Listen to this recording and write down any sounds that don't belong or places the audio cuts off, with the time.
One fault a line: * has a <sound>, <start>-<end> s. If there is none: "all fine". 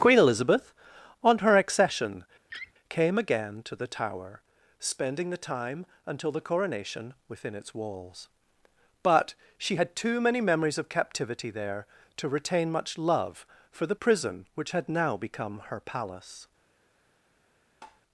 * has a laugh, 2.5-2.7 s
* has a tap, 17.8-18.0 s